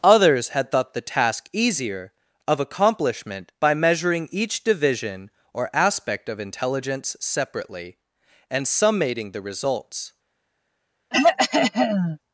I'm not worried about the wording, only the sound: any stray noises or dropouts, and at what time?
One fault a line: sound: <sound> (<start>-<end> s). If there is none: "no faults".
sound: throat clearing (11.1-12.2 s)